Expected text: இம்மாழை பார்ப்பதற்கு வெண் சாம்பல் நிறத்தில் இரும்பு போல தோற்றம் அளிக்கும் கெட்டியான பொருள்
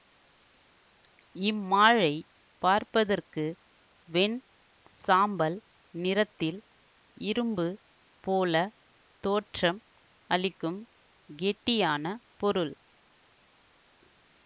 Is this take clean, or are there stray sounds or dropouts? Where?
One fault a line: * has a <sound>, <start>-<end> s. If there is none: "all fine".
all fine